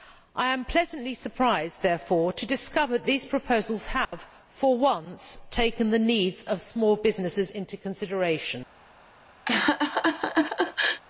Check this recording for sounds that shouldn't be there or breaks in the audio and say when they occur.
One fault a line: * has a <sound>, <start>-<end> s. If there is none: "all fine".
* has a dropout, 4.0-4.1 s
* has a laugh, 9.5-11.0 s